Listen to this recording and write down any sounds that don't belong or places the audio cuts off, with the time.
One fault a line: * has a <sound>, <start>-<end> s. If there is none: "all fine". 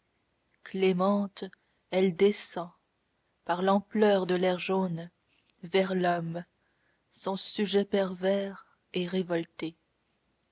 all fine